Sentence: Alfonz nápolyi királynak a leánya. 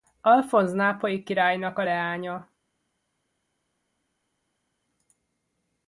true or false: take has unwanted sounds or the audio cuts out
false